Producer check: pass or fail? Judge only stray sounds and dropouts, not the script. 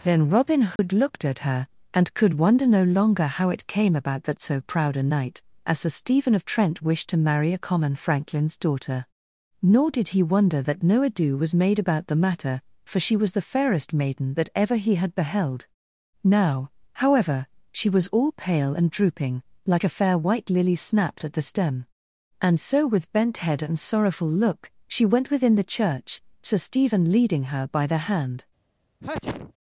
fail